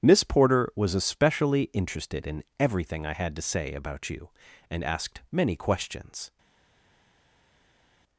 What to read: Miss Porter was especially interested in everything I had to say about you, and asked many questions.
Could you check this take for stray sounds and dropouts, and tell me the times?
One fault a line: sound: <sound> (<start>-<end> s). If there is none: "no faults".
no faults